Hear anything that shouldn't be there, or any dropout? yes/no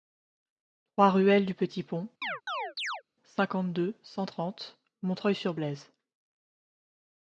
yes